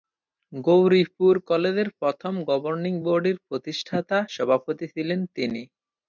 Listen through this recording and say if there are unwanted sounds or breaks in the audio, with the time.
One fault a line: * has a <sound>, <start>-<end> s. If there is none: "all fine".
all fine